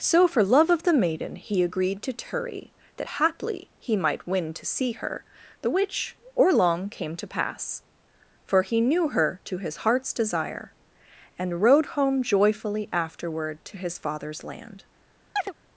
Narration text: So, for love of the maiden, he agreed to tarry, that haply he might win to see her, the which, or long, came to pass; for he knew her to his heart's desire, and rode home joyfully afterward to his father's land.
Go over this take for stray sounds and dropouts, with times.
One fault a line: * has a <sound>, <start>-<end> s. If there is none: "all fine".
* has a chirp, 15.4-15.5 s